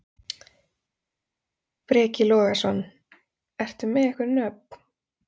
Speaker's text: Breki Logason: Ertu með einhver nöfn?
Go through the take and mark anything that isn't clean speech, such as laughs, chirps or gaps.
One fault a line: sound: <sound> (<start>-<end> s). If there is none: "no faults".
no faults